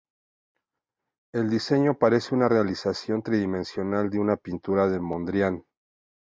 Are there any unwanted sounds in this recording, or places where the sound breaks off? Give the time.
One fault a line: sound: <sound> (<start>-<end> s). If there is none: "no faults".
no faults